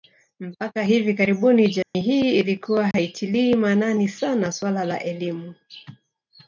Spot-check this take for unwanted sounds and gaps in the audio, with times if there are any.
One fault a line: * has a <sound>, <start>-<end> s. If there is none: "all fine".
* has a dropout, 1.8-1.9 s
* has a dropout, 2.9-2.9 s